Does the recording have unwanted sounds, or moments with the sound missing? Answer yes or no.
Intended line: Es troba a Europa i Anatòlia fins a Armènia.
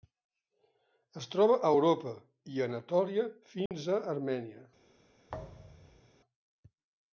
yes